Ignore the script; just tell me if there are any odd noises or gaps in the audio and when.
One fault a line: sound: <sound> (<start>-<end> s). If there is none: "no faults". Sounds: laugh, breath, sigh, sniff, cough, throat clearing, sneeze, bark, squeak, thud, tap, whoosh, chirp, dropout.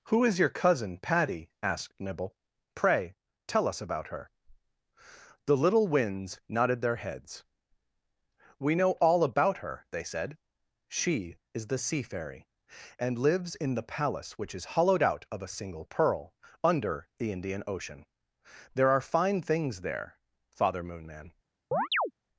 sound: chirp (21.7-22.1 s)